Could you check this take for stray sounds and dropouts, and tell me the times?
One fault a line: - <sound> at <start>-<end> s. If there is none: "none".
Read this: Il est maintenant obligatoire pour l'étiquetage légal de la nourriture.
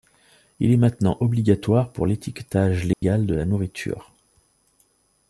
- dropout at 2.9-3.0 s